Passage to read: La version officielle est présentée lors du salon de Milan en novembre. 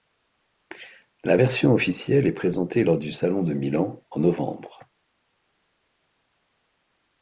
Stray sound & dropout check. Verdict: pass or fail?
pass